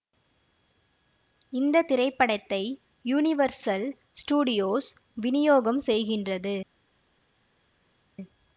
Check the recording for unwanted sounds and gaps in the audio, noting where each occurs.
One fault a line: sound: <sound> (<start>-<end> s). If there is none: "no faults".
no faults